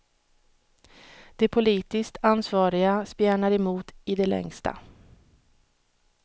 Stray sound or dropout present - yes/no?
no